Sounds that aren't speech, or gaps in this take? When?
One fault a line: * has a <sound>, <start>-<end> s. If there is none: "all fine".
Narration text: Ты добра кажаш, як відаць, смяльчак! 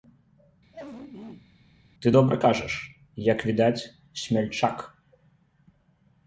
* has a throat clearing, 0.7-1.5 s